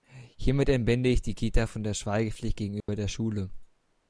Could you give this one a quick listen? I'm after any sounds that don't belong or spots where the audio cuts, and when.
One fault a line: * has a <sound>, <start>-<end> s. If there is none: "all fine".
* has a dropout, 2.8-2.9 s